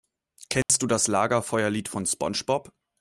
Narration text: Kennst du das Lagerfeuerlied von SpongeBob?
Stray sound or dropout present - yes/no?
yes